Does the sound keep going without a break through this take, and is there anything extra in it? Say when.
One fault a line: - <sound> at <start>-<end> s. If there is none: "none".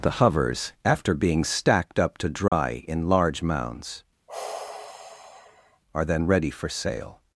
- dropout at 2.5-2.5 s
- sigh at 4.3-5.8 s